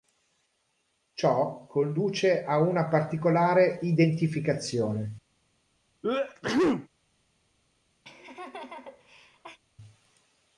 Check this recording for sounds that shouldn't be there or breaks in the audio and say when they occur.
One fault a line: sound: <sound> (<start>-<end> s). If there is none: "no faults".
sound: sneeze (6.0-6.9 s)
sound: laugh (8.0-9.6 s)